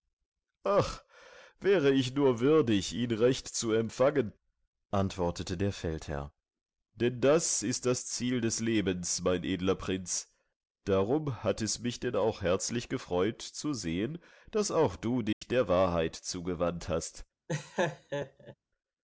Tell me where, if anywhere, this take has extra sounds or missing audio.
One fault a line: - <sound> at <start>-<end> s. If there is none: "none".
- dropout at 15.3-15.4 s
- laugh at 17.5-18.5 s